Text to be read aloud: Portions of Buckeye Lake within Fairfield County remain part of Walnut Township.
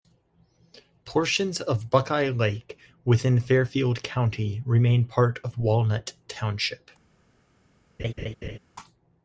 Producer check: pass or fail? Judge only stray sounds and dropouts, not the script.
fail